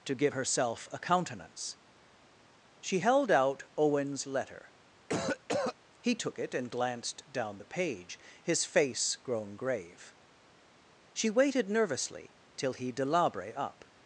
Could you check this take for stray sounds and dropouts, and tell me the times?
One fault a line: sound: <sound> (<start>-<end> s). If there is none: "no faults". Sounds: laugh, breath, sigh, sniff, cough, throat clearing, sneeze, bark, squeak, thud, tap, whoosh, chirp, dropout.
sound: cough (5.1-5.7 s)